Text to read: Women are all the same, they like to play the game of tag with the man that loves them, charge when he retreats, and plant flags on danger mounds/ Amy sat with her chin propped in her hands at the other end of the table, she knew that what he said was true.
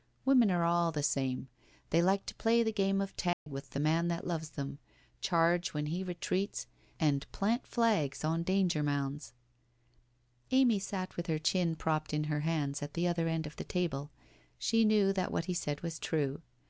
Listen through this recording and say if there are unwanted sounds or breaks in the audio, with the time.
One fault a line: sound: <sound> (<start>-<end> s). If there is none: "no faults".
sound: dropout (3.3-3.5 s)